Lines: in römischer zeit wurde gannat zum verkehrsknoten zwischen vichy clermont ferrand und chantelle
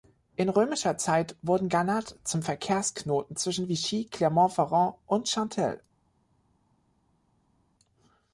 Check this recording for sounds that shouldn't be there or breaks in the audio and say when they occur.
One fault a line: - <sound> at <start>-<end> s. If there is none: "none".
none